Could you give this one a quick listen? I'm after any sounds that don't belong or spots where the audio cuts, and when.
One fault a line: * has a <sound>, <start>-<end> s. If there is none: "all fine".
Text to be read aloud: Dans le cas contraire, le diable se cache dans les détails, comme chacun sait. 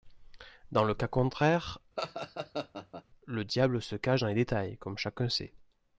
* has a laugh, 2.0-3.0 s